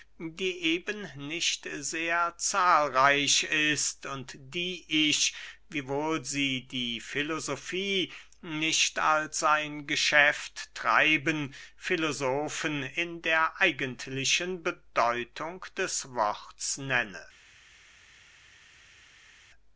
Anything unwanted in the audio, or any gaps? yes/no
no